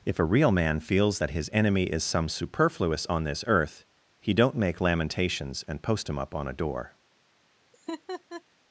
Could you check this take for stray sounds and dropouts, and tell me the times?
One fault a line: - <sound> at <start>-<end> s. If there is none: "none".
- laugh at 7.7-8.4 s